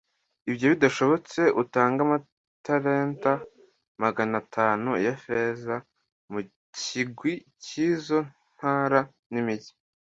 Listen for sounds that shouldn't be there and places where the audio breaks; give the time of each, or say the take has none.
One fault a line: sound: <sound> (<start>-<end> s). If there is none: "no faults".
no faults